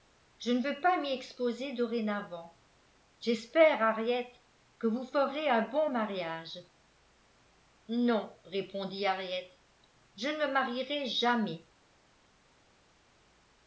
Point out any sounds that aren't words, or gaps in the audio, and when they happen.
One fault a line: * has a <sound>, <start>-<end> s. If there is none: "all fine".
all fine